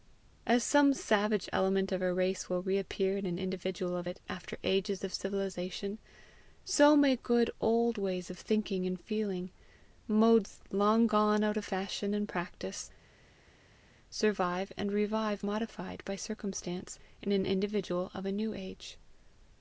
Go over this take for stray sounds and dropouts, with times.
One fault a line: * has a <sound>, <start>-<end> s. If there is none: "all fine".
all fine